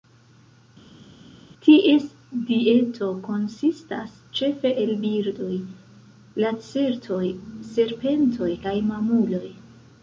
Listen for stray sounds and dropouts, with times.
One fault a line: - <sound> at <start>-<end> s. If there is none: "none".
none